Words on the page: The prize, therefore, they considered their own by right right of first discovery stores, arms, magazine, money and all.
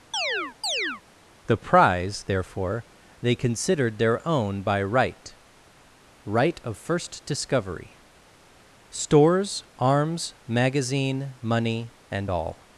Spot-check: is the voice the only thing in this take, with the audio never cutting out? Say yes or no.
no